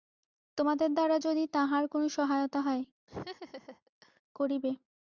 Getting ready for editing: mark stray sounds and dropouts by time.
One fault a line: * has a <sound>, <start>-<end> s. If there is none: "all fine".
* has a laugh, 3.1-4.2 s